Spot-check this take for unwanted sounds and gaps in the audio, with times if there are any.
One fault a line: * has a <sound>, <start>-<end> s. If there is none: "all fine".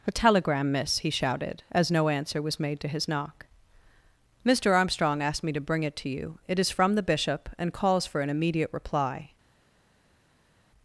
all fine